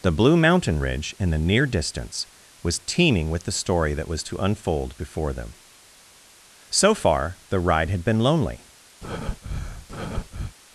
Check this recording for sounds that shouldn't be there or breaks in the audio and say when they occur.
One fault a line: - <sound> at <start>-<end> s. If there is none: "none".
- breath at 9.0-10.5 s